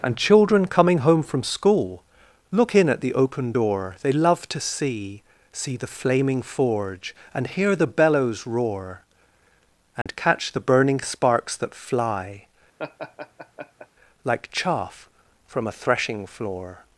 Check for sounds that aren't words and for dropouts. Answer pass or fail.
fail